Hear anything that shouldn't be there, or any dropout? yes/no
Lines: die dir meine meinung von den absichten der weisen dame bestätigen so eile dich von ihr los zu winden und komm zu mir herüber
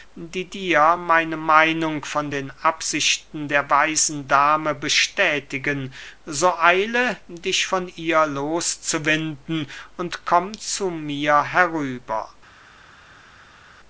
no